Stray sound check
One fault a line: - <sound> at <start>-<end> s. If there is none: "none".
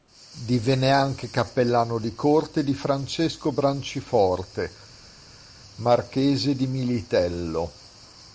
none